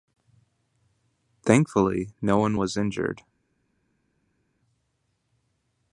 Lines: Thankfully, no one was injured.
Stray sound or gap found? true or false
false